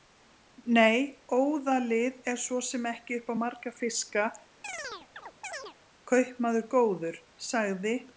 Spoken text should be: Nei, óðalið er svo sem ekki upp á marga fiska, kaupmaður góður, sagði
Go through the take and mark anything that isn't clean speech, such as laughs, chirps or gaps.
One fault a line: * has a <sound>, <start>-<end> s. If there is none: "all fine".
* has a chirp, 4.6-5.8 s